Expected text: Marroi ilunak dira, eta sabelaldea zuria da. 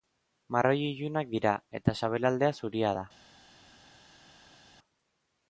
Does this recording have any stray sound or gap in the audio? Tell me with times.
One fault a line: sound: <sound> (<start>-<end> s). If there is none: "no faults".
no faults